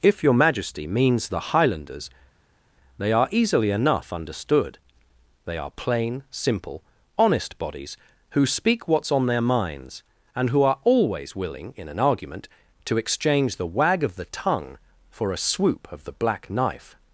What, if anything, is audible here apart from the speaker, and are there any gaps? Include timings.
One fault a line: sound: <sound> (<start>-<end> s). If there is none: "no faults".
no faults